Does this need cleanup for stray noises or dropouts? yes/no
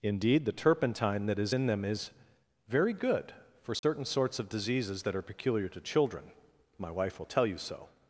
yes